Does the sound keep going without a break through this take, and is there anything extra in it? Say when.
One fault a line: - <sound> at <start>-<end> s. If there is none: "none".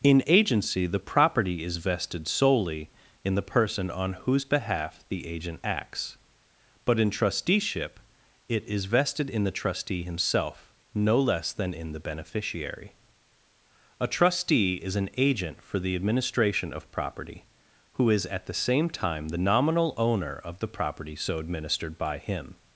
none